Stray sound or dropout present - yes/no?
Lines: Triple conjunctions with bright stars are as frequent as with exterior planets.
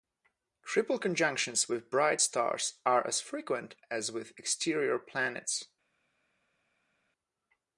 no